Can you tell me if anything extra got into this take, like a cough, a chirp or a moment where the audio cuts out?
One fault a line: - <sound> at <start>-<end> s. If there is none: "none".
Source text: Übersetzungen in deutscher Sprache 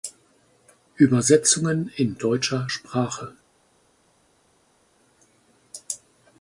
none